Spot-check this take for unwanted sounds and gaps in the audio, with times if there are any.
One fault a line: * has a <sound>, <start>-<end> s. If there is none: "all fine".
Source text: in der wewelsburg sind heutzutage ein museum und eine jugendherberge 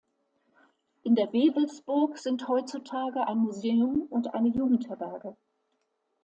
all fine